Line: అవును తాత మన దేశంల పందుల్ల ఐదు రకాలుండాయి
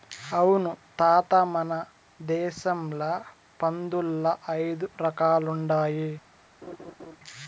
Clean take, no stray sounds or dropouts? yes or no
no